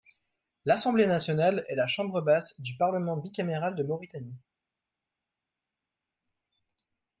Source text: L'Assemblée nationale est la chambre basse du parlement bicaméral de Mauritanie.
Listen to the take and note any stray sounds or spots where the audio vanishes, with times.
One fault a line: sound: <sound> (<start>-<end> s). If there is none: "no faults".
no faults